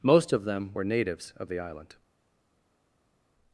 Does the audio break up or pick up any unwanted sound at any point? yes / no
no